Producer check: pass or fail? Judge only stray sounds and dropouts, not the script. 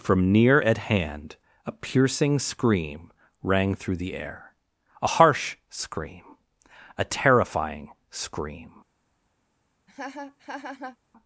fail